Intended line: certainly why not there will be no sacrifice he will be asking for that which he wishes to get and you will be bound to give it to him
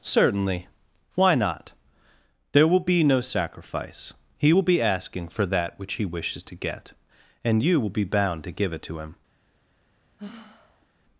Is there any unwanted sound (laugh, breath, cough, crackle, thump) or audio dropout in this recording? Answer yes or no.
yes